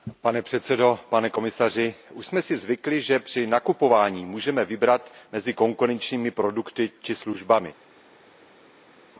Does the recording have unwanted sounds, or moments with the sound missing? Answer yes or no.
no